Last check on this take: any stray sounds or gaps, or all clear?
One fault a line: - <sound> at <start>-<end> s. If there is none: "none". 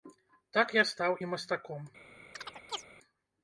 - chirp at 2.3-2.9 s